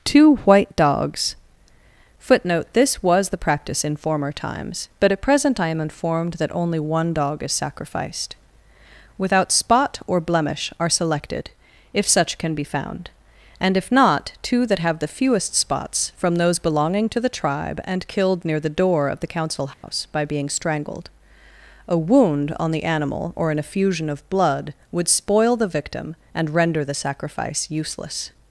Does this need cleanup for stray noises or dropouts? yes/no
yes